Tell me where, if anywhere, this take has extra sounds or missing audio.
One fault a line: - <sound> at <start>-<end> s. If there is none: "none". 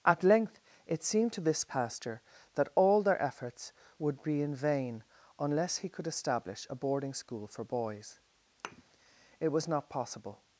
- thud at 8.6-8.8 s